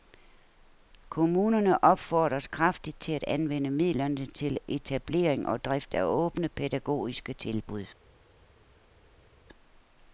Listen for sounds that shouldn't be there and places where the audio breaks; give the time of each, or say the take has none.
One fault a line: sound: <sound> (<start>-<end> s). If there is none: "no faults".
no faults